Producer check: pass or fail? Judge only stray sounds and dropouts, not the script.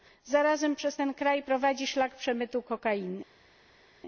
pass